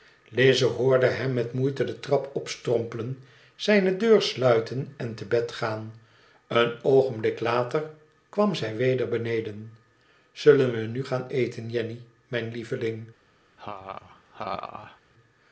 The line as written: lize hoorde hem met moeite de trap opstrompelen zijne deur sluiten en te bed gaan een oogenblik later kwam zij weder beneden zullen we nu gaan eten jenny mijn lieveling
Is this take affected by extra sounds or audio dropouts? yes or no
yes